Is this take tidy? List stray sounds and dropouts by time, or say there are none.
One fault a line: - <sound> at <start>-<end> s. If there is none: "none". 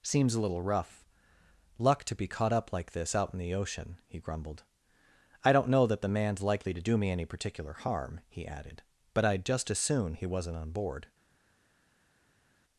none